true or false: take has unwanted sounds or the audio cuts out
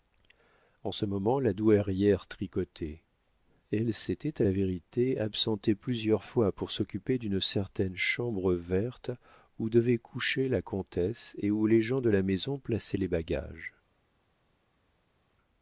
false